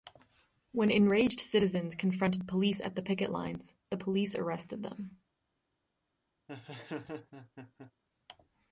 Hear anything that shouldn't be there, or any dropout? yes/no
yes